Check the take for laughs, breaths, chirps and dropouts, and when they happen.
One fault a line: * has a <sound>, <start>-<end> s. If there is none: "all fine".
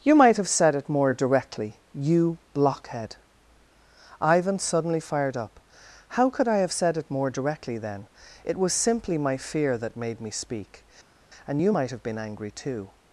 all fine